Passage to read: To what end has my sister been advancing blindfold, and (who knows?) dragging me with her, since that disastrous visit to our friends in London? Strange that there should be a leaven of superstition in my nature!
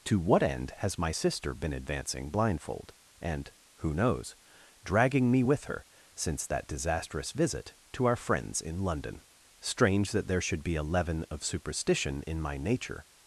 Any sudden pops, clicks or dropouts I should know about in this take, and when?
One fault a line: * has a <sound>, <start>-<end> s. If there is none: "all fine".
all fine